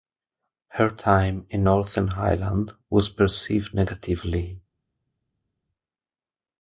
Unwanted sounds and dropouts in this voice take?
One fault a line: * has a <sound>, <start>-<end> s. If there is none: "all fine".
all fine